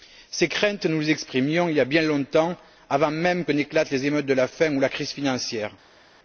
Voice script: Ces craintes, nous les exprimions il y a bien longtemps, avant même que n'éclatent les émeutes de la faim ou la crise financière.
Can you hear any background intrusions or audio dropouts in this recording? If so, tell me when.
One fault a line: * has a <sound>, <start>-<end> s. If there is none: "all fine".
all fine